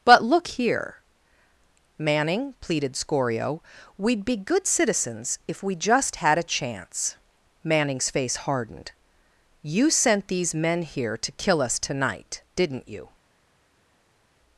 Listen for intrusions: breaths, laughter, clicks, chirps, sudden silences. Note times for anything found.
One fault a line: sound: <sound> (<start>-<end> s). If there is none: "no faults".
no faults